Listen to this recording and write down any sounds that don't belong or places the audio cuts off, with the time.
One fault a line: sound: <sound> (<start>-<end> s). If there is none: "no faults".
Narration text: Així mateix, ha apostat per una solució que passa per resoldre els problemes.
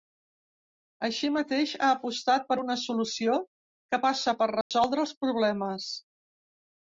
sound: dropout (4.6-4.7 s)